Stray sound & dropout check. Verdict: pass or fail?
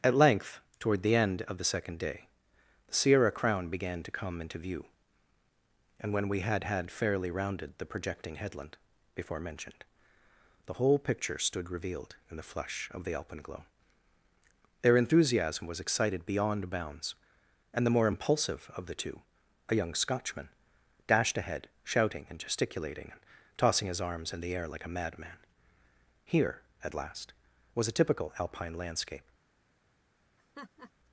fail